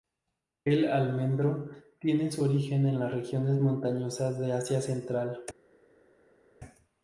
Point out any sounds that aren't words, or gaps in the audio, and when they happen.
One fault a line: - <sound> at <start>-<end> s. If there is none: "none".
none